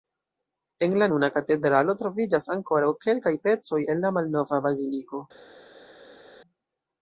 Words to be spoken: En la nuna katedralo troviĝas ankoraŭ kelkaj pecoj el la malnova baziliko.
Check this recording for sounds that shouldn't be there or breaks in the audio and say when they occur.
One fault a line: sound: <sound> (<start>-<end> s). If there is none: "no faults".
no faults